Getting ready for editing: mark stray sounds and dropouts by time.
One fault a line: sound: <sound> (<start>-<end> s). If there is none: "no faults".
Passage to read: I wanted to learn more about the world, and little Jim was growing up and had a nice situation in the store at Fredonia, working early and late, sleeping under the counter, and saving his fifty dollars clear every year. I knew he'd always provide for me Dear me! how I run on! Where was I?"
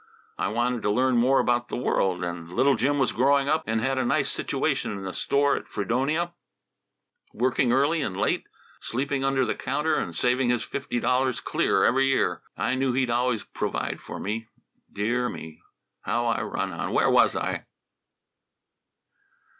no faults